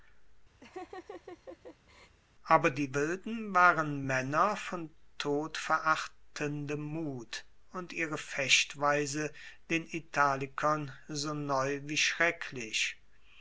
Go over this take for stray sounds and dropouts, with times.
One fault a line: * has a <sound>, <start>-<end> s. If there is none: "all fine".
* has a laugh, 0.6-2.2 s